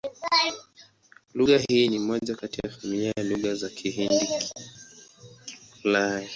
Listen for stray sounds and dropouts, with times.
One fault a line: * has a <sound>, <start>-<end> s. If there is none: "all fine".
all fine